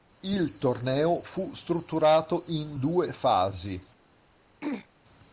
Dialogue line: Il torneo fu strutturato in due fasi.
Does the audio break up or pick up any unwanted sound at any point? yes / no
yes